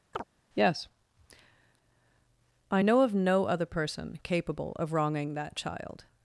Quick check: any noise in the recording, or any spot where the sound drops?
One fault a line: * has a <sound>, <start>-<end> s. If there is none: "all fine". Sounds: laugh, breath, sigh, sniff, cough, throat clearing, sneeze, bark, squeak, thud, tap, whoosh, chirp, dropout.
* has a chirp, 0.1-0.2 s